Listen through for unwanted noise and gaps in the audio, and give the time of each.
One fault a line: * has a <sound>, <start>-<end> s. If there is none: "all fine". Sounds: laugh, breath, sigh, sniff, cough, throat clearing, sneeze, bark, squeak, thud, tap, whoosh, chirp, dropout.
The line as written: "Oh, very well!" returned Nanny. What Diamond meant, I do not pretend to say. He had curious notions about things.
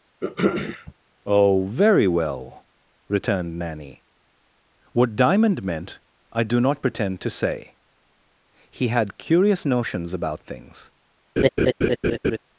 * has a throat clearing, 0.2-0.9 s
* has a laugh, 11.4-12.4 s